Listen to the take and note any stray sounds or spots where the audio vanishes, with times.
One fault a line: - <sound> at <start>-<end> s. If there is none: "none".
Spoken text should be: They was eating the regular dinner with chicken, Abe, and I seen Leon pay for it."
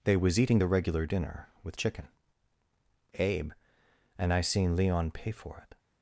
none